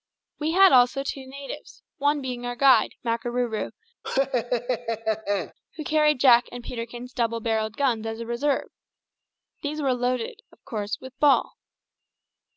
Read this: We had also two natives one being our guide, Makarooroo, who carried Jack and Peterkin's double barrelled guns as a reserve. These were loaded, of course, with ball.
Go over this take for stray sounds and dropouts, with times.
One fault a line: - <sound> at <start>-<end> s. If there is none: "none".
- laugh at 4.0-5.5 s